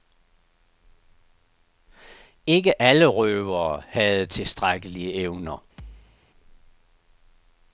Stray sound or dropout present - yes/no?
yes